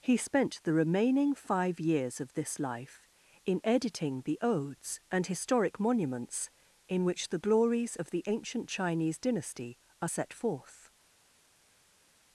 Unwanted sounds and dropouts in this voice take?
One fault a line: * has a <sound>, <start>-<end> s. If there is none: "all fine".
all fine